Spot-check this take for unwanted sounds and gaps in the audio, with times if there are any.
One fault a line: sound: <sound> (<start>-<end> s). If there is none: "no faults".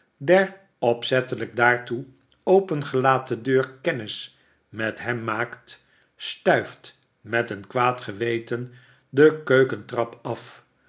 no faults